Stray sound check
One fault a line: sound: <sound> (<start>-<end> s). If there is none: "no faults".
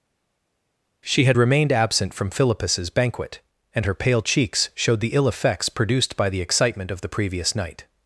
no faults